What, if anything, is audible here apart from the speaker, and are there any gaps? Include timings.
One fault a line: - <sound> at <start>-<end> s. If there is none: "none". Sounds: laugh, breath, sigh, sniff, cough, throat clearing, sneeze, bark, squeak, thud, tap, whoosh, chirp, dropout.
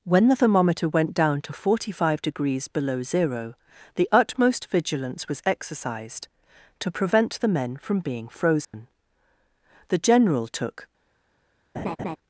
- dropout at 8.6-8.7 s
- laugh at 11.7-12.2 s